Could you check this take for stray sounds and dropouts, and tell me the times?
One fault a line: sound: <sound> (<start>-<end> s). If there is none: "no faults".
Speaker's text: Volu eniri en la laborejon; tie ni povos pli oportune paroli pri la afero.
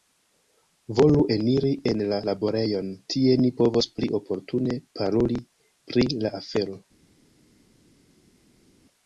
no faults